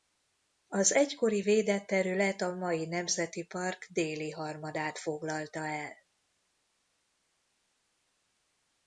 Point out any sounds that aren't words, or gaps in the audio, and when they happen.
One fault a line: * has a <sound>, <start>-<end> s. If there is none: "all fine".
all fine